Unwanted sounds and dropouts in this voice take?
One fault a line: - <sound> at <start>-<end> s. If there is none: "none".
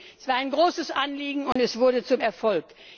- dropout at 1.5-1.6 s